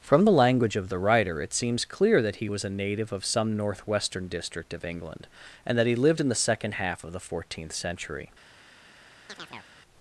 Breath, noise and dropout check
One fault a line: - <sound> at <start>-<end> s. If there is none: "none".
- chirp at 9.3-9.7 s